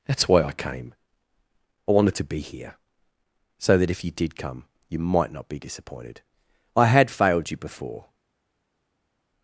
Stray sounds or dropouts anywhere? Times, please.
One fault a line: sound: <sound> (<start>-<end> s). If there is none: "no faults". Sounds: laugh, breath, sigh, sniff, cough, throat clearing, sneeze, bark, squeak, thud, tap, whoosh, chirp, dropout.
no faults